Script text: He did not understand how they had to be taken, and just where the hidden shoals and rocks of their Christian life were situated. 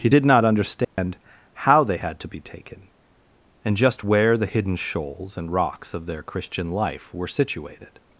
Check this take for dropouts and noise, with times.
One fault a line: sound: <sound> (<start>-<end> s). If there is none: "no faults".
sound: dropout (0.8-1.0 s)